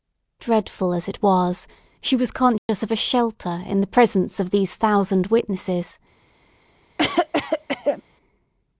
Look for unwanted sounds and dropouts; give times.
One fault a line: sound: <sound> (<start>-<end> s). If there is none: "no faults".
sound: dropout (2.6-2.7 s)
sound: cough (7.0-8.0 s)